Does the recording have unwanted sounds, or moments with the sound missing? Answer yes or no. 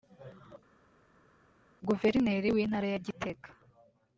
no